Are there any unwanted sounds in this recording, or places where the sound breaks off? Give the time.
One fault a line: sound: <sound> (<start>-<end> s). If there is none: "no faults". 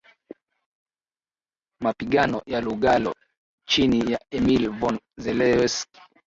no faults